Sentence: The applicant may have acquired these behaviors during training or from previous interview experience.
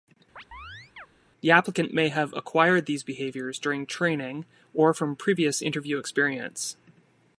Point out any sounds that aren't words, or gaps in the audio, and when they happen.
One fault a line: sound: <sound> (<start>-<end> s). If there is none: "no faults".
sound: chirp (0.4-1.1 s)